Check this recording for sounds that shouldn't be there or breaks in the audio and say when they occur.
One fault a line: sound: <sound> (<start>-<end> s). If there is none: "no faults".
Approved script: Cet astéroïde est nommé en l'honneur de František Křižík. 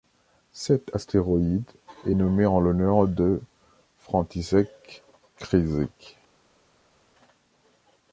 no faults